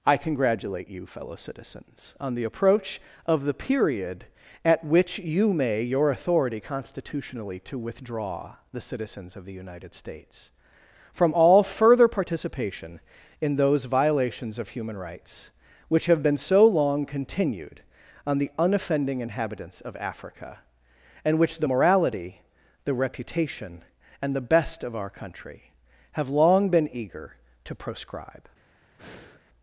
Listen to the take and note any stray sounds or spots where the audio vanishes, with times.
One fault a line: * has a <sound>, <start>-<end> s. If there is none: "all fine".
* has a breath, 29.0-29.4 s